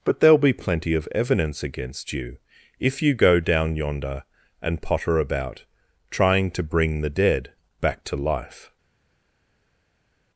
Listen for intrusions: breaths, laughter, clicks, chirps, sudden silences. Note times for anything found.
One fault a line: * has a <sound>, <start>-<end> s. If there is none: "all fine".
all fine